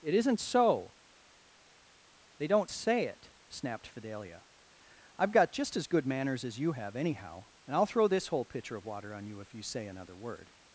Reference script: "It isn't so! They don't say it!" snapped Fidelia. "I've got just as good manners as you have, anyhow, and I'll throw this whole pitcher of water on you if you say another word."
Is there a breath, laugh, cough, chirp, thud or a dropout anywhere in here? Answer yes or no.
no